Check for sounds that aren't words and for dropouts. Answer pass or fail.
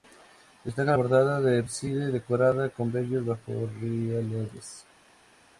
pass